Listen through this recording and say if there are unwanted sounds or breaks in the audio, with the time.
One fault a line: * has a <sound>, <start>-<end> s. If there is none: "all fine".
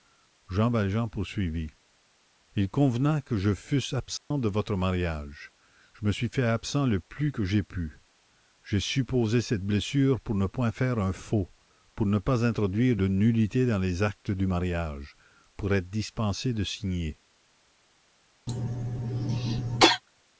* has a dropout, 4.2-4.3 s
* has a cough, 18.5-20.0 s